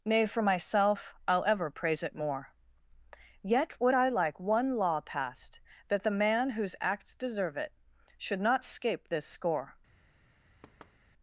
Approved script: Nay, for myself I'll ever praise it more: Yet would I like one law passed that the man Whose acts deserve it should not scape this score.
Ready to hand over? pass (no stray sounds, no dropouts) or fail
fail